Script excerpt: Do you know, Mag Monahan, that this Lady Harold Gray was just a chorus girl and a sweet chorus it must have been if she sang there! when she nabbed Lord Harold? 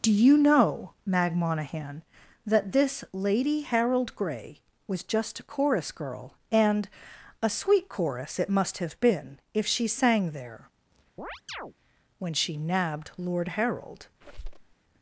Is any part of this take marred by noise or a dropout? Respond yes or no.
yes